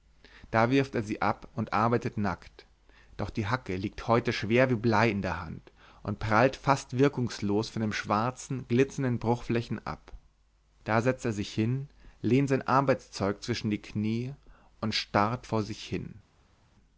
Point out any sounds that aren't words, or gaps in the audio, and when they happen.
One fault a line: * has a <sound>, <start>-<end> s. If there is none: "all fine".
all fine